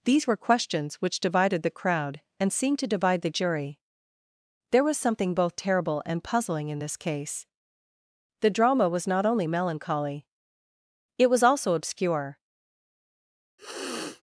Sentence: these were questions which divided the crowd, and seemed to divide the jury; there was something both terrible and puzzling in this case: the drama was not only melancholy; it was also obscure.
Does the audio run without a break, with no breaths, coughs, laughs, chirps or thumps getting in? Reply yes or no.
no